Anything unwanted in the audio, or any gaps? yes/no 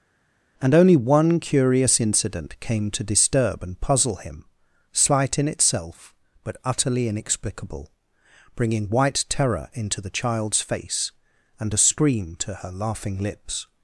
no